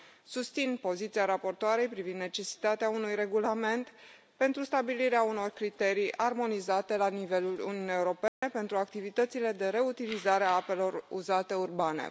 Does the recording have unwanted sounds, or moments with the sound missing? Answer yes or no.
yes